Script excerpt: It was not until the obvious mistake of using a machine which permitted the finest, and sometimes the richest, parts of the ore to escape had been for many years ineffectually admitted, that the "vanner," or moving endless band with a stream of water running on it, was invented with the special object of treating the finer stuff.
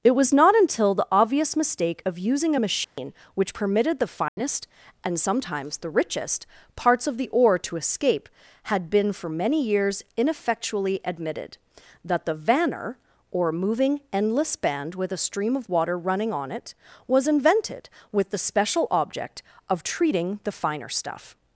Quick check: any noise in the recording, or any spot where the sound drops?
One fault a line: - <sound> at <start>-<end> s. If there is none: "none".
- dropout at 2.8-3.0 s
- dropout at 4.3-4.4 s